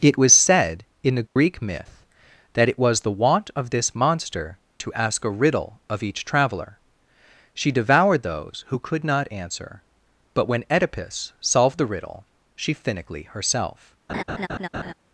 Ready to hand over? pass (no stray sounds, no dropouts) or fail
fail